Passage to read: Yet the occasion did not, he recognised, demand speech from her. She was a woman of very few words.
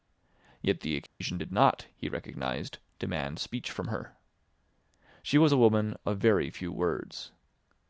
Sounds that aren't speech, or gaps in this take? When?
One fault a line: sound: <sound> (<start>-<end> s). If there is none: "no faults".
sound: dropout (1.1-1.2 s)